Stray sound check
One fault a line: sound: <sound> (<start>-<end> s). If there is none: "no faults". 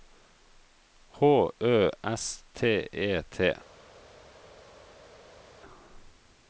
no faults